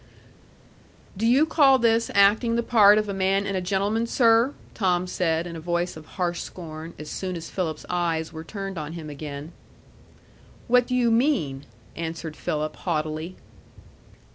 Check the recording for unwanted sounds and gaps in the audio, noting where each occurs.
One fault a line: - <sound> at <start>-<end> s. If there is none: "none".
none